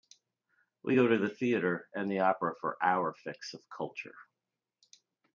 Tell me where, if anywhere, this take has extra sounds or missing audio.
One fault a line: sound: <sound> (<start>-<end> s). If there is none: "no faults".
no faults